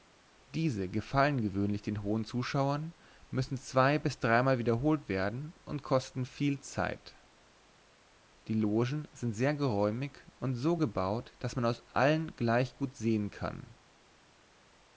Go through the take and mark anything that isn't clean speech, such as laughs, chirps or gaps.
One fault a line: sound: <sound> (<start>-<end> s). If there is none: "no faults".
no faults